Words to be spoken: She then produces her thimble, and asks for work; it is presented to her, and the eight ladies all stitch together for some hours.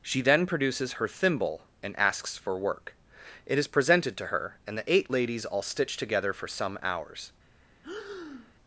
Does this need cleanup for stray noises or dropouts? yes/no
yes